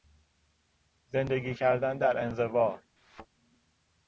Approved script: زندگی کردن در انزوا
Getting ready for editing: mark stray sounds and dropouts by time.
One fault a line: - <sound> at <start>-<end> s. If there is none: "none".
- thud at 3.0-3.3 s